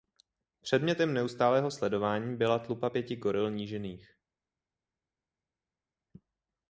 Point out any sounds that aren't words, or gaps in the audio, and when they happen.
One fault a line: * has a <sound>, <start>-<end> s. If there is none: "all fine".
all fine